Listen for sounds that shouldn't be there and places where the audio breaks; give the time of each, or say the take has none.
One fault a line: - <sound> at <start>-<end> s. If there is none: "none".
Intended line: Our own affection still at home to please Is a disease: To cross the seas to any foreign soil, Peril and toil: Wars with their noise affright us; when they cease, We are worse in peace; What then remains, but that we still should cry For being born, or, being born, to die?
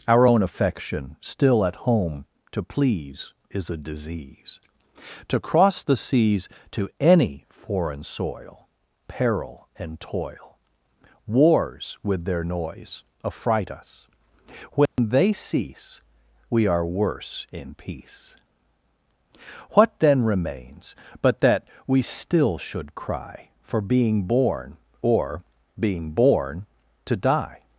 - dropout at 14.9-15.0 s